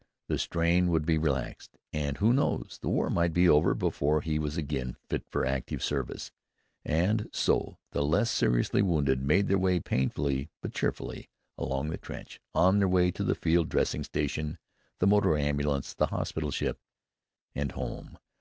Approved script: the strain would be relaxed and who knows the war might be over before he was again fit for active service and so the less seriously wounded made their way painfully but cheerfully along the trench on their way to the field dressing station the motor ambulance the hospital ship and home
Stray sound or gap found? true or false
false